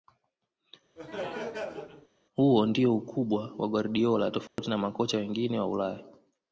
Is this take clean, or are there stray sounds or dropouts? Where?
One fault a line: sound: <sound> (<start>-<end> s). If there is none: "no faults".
sound: laugh (1.0-2.1 s)
sound: dropout (4.5-4.6 s)